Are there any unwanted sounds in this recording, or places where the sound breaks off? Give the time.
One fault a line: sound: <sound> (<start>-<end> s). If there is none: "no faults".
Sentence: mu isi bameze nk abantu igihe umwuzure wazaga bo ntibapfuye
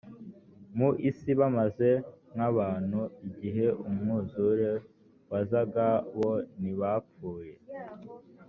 no faults